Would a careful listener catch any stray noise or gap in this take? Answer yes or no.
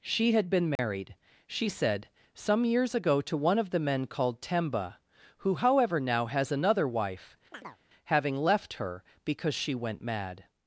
yes